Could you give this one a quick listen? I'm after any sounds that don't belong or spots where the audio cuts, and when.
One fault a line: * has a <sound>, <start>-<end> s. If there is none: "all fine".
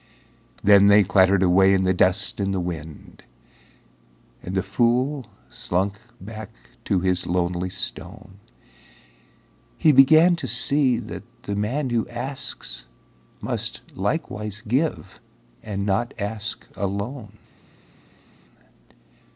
all fine